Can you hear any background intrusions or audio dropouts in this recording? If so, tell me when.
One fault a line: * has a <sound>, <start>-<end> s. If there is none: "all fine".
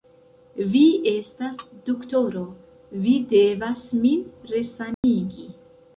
* has a dropout, 4.9-5.0 s